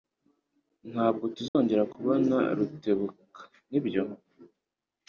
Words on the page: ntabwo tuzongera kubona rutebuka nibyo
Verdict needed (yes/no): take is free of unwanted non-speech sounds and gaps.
no